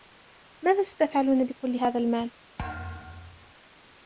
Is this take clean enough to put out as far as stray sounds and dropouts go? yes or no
no